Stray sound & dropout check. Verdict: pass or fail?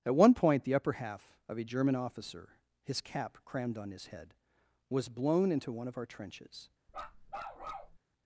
fail